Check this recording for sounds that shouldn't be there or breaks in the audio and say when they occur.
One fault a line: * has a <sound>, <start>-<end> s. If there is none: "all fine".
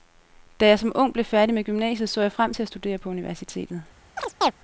* has a chirp, 4.2-4.5 s